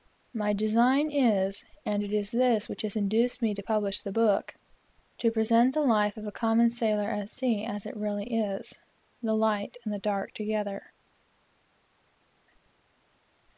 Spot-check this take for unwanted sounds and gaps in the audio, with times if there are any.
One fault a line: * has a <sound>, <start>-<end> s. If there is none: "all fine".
all fine